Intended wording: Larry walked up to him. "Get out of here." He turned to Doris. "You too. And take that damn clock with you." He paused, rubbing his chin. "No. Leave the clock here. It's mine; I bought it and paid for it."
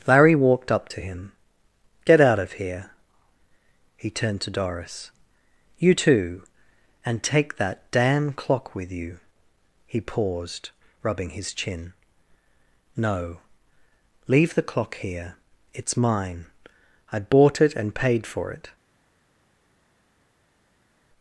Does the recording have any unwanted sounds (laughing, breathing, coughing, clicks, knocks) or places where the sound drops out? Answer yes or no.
no